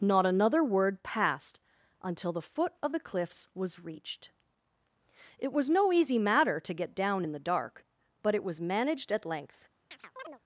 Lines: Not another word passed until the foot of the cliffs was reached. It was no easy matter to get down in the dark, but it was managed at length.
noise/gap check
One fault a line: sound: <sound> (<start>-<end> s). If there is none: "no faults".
sound: chirp (9.9-10.4 s)